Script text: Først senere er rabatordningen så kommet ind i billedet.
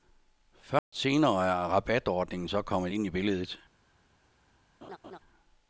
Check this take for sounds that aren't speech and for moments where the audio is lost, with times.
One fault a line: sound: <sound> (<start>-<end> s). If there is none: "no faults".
sound: dropout (0.8-0.9 s)
sound: laugh (4.8-5.2 s)